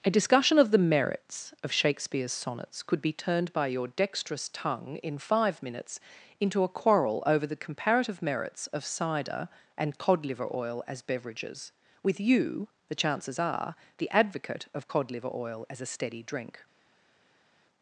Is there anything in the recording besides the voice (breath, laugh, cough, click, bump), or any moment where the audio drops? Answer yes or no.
no